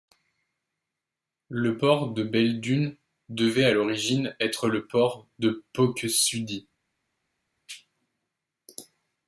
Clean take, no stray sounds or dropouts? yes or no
yes